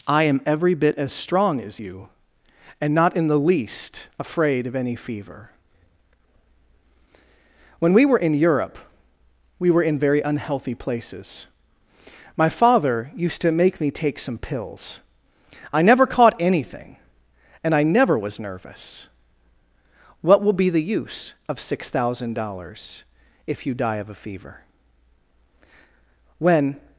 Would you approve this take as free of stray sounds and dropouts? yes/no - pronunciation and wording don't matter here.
yes